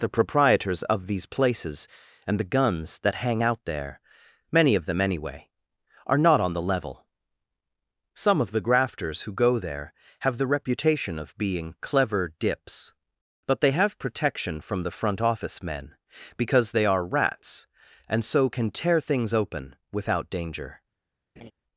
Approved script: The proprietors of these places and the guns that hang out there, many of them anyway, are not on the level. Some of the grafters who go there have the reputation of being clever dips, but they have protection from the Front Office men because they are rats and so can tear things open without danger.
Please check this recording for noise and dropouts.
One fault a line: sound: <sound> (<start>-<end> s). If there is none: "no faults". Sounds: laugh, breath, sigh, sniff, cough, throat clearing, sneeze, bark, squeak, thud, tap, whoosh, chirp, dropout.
sound: laugh (21.4-21.5 s)